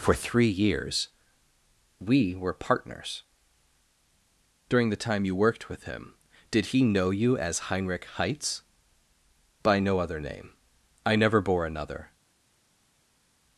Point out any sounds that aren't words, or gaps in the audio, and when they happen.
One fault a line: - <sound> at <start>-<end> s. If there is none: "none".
none